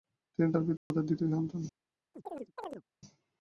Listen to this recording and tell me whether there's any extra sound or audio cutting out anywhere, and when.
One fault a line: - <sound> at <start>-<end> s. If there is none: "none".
- dropout at 0.8-0.9 s
- chirp at 2.1-2.8 s